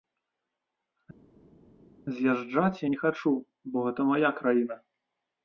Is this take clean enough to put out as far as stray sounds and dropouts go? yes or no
yes